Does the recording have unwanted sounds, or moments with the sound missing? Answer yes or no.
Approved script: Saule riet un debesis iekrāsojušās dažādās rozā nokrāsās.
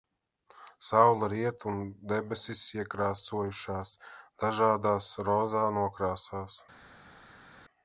no